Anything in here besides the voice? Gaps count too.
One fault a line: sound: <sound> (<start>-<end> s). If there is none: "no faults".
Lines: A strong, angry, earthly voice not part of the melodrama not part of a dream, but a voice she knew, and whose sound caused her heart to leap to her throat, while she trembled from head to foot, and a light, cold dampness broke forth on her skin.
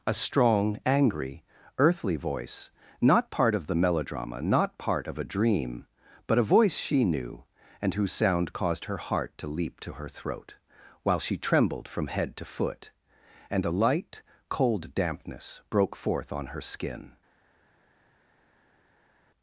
no faults